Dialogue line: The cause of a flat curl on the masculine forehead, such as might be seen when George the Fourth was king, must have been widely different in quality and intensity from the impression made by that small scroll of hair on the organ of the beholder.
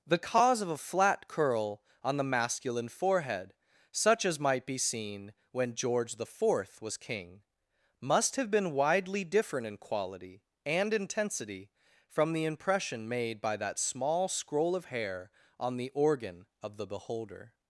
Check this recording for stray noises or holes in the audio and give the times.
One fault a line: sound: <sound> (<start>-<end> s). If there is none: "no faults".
no faults